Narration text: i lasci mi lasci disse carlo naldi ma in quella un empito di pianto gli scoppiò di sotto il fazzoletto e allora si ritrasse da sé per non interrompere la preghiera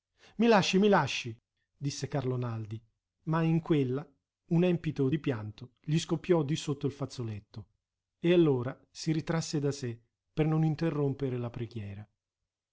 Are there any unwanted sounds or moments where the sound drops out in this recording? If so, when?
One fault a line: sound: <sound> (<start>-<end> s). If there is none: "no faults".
no faults